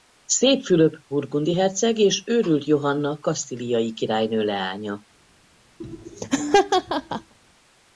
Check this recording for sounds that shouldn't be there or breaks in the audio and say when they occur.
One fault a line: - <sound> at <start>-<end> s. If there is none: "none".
- laugh at 5.8-7.3 s